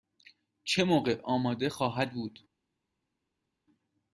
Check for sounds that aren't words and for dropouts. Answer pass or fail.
pass